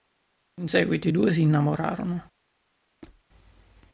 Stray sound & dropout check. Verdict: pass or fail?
fail